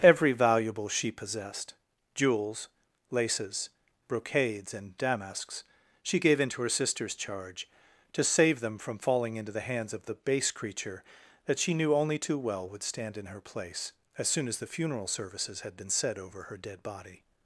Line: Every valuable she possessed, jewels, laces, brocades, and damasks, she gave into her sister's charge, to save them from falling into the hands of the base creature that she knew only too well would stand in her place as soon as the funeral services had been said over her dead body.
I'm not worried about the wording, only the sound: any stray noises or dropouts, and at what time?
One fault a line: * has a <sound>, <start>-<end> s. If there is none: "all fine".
all fine